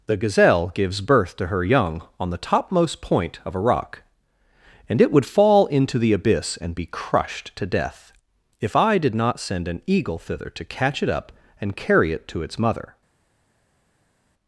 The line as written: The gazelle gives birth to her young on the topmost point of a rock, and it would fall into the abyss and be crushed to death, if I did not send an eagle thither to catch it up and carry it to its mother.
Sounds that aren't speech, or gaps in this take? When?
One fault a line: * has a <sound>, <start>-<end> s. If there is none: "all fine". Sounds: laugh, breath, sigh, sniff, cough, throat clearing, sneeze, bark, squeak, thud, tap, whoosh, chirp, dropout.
all fine